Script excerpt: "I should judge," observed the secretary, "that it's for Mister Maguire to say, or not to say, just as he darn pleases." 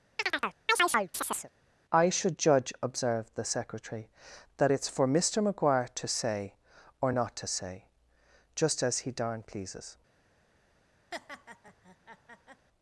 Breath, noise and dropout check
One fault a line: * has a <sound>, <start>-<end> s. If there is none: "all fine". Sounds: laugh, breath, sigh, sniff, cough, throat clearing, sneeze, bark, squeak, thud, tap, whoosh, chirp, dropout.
* has a chirp, 0.2-1.5 s
* has a laugh, 11.1-12.7 s